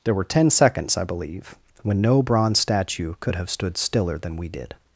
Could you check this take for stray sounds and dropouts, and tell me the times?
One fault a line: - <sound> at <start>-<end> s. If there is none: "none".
none